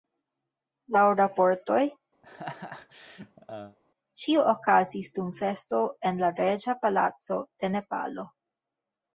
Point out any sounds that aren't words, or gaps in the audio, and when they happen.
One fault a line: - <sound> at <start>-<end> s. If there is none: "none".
- laugh at 2.2-3.8 s